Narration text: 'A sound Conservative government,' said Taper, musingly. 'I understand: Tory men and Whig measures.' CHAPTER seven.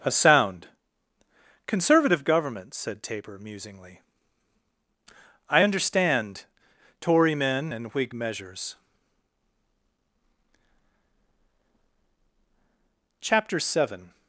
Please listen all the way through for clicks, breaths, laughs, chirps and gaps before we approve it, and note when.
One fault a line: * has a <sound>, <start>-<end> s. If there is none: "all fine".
all fine